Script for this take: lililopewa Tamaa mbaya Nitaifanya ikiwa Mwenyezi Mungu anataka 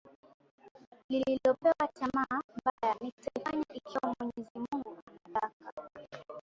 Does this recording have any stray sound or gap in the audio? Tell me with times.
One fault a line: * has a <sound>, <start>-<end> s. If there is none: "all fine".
* has a dropout, 2.7-2.8 s